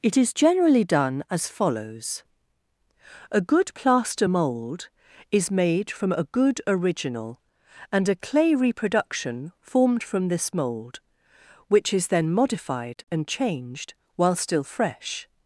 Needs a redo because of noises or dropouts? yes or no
no